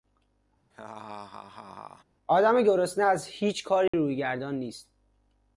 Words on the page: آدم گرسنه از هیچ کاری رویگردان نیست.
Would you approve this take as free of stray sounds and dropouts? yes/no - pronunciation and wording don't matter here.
no